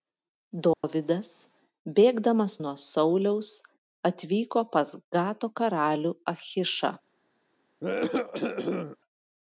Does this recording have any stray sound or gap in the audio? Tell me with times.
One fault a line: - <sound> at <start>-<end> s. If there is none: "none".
- dropout at 0.7-0.8 s
- cough at 7.8-9.0 s